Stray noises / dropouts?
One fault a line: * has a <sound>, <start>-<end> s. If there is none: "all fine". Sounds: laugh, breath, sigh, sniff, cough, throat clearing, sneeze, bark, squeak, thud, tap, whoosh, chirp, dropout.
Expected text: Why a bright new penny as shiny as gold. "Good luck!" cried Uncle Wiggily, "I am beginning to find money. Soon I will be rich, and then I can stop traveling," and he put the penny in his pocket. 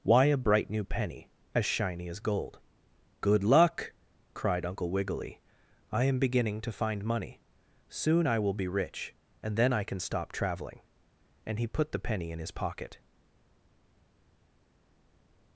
all fine